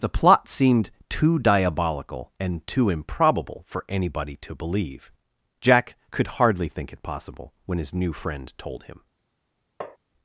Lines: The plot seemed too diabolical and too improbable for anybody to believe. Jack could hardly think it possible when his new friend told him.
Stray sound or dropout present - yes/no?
yes